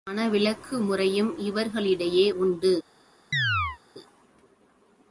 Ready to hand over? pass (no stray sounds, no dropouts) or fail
fail